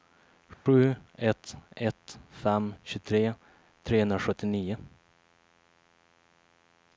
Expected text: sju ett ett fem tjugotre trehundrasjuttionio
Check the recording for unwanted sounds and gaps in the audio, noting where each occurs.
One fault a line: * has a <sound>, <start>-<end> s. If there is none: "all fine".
* has a dropout, 0.5-0.7 s